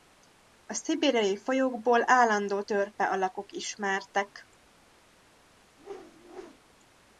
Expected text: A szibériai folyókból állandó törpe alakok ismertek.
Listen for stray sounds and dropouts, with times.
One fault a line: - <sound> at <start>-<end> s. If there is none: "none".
- whoosh at 5.8-6.6 s